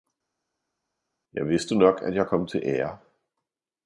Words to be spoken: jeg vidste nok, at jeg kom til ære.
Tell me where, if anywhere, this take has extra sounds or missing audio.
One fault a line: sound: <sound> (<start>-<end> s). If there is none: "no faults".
no faults